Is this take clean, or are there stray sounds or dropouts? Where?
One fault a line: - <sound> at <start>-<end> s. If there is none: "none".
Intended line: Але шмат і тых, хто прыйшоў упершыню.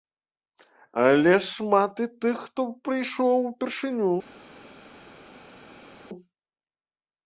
none